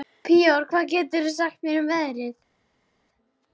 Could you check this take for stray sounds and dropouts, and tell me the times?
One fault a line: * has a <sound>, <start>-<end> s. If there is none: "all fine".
all fine